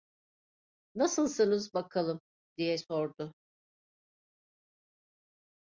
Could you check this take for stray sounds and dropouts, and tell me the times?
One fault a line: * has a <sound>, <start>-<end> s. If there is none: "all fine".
all fine